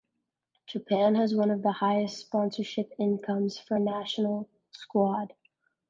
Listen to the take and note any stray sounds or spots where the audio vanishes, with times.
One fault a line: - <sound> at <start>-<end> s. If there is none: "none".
none